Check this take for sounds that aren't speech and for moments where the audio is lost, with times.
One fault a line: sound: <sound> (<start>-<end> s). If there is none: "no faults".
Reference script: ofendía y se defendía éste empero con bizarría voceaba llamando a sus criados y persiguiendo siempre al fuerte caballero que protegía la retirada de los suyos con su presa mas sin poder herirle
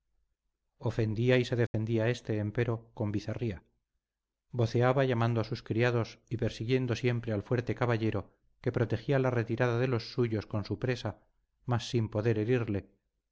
sound: dropout (1.7-1.7 s)